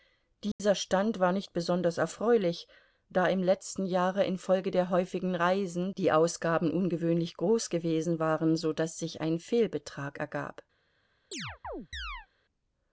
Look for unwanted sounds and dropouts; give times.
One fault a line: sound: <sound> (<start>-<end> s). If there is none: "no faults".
sound: dropout (0.5-0.6 s)
sound: chirp (11.3-12.3 s)